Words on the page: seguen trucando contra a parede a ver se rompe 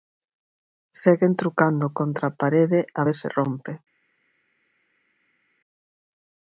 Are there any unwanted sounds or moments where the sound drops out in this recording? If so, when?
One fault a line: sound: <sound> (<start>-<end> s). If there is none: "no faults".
no faults